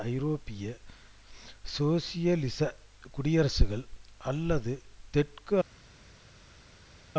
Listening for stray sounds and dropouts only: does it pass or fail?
pass